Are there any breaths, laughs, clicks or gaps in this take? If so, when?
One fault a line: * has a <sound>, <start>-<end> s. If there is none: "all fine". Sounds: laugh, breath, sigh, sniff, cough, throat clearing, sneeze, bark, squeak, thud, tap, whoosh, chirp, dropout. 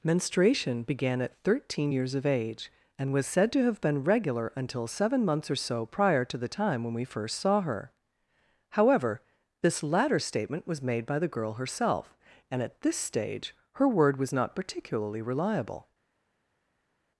all fine